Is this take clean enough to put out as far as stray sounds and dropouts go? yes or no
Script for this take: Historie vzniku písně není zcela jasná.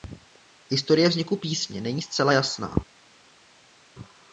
yes